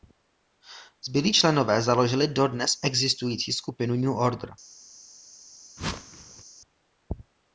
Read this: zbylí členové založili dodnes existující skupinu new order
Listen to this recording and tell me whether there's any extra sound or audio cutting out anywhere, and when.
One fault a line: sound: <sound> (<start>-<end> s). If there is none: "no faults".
sound: whoosh (5.8-6.4 s)